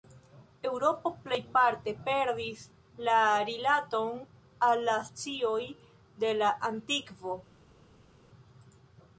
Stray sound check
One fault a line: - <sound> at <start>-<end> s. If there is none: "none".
none